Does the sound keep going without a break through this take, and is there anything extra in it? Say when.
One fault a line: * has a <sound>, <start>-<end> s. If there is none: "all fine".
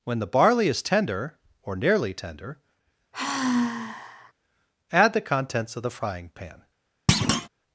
* has a sigh, 3.1-4.3 s
* has a thud, 7.1-7.5 s